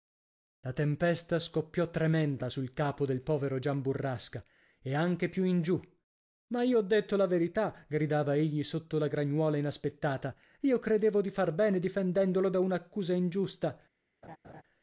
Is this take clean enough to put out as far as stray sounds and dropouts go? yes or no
no